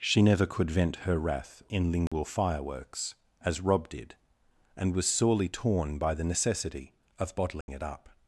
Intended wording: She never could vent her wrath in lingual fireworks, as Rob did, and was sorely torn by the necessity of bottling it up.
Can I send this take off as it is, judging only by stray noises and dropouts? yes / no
no